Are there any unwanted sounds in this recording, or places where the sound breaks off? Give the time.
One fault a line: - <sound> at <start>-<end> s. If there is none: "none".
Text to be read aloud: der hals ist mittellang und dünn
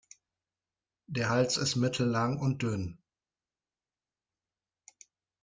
none